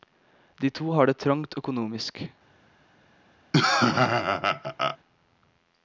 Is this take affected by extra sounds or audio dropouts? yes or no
yes